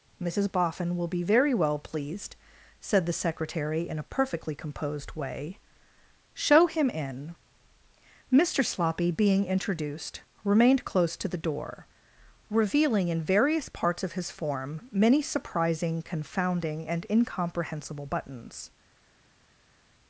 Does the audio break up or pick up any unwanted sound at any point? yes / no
no